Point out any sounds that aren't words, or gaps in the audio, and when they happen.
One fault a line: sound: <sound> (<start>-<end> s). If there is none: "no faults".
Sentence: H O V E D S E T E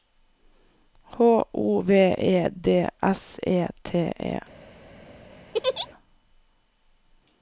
sound: laugh (5.5-5.9 s)